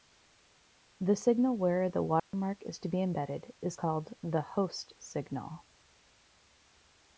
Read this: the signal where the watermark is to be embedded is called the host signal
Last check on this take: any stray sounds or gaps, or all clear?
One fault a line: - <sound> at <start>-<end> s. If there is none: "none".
- dropout at 2.2-2.3 s